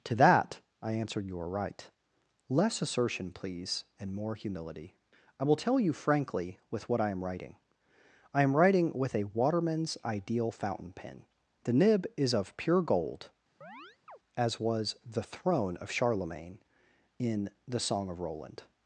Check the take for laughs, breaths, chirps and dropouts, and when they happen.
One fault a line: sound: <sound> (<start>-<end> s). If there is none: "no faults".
sound: chirp (13.6-14.2 s)